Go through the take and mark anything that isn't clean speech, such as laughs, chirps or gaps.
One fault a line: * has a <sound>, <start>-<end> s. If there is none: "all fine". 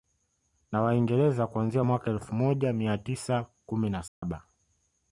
* has a dropout, 4.1-4.2 s